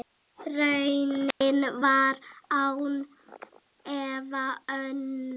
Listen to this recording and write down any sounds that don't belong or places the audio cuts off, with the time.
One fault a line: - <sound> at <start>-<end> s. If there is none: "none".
- dropout at 1.3-1.4 s